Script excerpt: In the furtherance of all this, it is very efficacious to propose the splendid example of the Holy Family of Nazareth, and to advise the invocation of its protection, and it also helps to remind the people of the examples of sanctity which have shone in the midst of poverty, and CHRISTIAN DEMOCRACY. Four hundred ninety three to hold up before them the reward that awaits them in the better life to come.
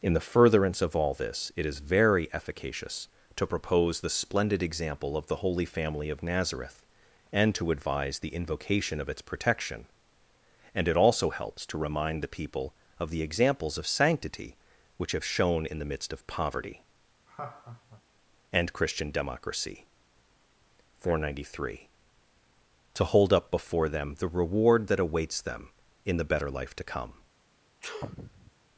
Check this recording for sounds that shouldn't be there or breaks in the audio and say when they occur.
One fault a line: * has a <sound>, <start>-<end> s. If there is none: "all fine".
* has a laugh, 17.3-18.0 s
* has a sneeze, 27.8-28.5 s